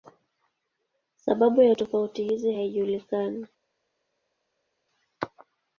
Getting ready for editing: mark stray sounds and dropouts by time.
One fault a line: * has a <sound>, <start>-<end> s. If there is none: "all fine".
all fine